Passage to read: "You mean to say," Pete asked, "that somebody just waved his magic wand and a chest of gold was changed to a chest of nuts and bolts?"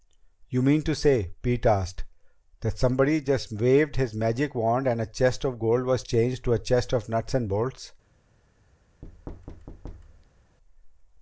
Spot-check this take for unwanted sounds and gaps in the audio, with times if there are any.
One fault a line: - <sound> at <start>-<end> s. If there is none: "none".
- thud at 9.0-10.6 s